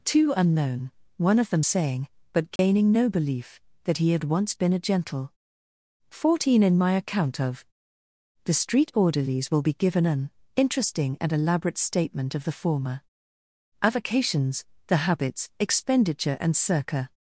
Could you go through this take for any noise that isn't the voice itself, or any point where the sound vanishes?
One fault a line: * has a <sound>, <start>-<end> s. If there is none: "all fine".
* has a dropout, 2.6-2.6 s